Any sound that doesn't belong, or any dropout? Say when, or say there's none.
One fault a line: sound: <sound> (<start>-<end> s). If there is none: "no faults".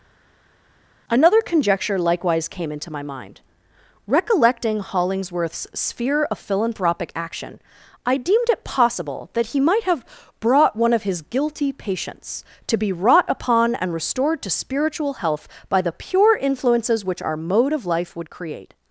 no faults